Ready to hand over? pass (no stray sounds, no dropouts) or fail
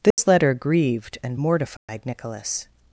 fail